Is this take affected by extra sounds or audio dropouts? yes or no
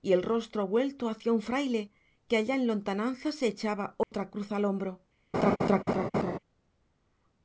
yes